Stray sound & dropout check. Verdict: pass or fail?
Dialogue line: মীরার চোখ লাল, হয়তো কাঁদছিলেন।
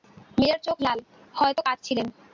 pass